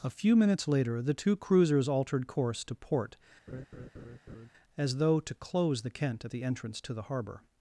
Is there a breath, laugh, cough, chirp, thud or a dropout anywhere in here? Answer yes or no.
yes